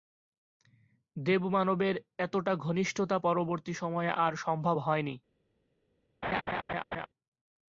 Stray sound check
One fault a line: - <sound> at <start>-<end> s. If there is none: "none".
- laugh at 6.2-7.1 s